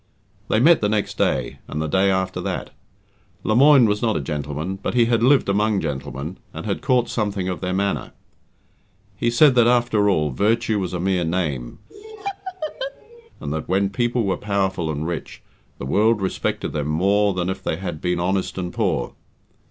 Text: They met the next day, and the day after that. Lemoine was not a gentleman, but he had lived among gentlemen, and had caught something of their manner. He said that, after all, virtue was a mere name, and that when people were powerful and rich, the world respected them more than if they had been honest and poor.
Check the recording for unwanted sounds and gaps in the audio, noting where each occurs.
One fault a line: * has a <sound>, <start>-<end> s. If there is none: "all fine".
* has a laugh, 11.9-13.3 s